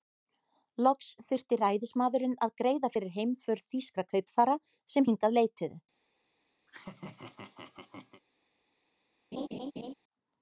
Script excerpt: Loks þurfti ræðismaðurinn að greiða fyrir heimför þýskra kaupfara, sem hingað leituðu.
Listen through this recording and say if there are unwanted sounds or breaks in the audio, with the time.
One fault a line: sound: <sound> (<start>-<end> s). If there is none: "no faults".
sound: laugh (6.7-8.2 s)
sound: laugh (9.3-9.9 s)